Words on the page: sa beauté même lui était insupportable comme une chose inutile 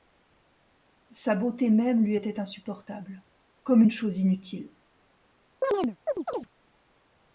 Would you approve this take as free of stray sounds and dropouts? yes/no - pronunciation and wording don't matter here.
no